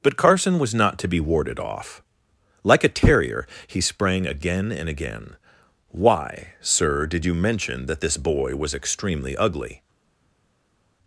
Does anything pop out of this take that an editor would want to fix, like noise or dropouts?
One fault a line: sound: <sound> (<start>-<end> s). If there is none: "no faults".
no faults